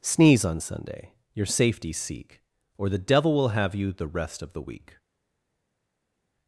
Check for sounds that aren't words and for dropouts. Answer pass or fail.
pass